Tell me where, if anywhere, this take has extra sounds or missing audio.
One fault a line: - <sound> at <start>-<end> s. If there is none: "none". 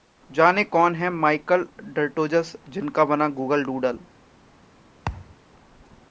- thud at 5.1-5.4 s